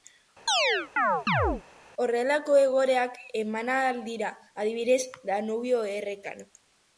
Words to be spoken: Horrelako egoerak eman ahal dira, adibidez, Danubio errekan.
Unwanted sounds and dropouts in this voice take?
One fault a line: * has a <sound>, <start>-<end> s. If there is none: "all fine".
* has a chirp, 0.5-1.6 s